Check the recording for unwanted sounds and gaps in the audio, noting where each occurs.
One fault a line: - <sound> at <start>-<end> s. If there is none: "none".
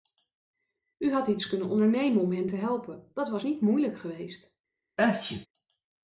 - sneeze at 5.0-5.5 s